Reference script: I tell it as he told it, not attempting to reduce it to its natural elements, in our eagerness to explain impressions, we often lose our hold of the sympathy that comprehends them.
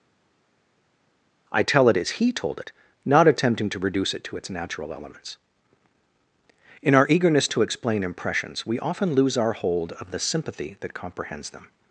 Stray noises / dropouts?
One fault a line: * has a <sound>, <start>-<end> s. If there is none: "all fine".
all fine